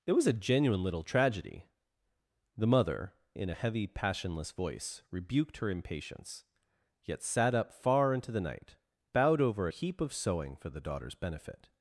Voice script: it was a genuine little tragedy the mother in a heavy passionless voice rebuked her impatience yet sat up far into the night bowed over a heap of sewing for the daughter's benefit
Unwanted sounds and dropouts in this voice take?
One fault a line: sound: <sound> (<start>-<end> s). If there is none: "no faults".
no faults